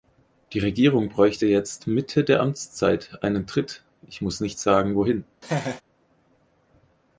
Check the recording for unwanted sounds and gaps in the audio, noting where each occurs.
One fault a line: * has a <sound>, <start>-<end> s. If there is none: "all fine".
* has a laugh, 5.4-5.8 s